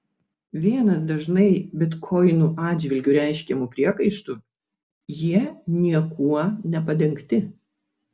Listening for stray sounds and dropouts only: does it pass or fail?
pass